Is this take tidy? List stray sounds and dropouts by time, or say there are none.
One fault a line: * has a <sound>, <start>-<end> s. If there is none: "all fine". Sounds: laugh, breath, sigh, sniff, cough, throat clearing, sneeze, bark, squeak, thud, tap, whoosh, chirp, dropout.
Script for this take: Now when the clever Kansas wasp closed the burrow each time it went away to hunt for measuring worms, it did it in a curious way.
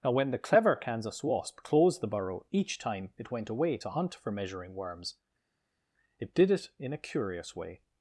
all fine